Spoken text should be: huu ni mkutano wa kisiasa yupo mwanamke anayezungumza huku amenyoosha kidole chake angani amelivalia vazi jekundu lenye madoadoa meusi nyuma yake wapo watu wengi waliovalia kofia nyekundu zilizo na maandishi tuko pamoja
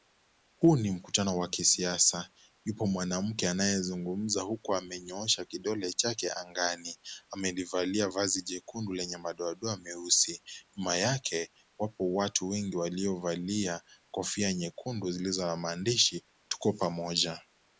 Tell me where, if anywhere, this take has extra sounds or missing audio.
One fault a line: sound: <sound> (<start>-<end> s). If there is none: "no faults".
no faults